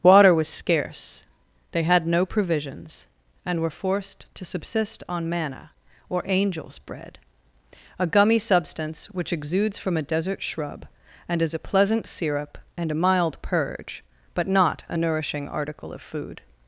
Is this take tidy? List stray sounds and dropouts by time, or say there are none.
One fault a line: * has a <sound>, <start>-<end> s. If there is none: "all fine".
all fine